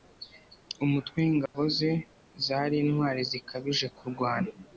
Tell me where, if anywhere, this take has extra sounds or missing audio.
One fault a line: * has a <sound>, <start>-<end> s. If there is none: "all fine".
* has a dropout, 1.5-1.5 s